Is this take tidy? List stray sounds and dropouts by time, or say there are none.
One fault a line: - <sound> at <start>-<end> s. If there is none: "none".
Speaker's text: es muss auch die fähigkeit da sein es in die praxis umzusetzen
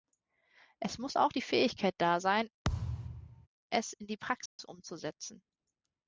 - thud at 2.6-3.5 s
- dropout at 4.5-4.6 s